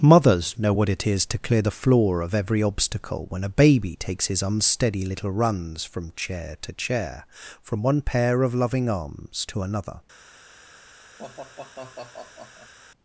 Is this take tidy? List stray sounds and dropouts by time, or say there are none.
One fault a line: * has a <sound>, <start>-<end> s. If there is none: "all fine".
* has a sigh, 11.2-12.7 s